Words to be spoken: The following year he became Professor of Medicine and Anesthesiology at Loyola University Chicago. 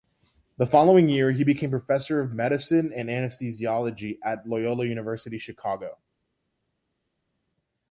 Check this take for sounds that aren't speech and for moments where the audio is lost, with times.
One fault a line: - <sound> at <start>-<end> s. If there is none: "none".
none